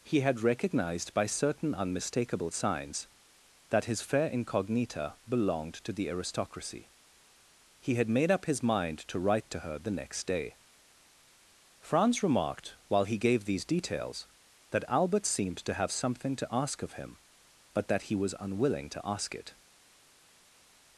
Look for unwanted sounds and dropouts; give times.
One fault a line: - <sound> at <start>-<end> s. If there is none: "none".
none